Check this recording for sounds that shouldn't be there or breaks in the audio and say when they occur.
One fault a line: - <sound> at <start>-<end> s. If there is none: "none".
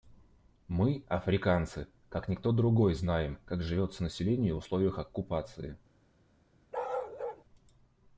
- bark at 6.7-7.4 s